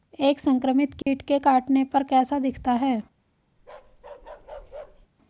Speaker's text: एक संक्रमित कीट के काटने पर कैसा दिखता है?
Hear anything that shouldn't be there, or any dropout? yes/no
yes